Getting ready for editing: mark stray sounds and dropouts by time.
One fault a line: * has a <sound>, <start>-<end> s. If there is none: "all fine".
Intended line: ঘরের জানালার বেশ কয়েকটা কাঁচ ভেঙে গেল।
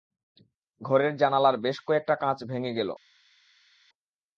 all fine